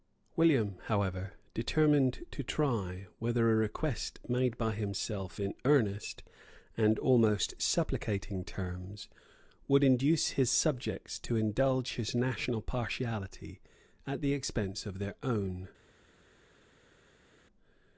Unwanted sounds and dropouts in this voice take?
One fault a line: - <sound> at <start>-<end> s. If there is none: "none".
none